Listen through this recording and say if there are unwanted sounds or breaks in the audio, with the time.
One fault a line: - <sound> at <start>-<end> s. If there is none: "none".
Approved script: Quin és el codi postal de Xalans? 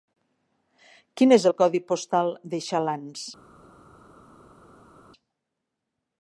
none